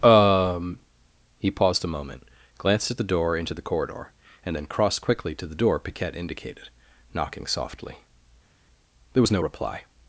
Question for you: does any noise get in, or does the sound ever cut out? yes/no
no